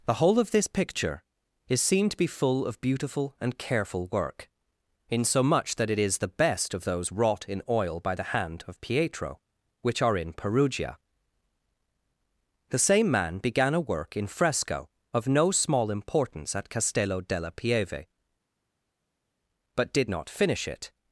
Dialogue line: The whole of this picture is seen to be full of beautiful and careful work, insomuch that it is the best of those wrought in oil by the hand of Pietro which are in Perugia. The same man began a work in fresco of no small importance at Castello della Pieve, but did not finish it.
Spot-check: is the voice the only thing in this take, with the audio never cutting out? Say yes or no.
yes